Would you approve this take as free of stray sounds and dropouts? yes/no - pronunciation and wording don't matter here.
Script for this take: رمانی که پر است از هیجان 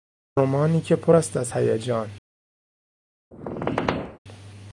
no